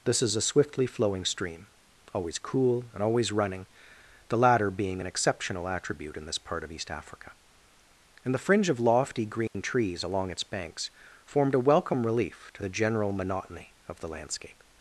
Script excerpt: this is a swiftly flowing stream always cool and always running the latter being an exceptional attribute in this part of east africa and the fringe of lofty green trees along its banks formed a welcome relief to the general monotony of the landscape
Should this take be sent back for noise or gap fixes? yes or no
yes